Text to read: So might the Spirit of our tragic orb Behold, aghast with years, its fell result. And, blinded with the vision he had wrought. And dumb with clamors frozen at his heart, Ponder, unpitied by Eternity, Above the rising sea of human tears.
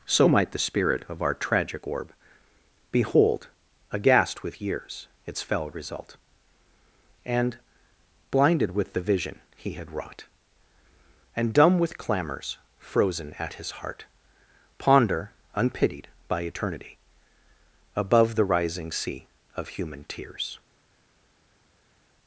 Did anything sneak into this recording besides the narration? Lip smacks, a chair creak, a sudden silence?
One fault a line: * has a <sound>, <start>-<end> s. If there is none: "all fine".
all fine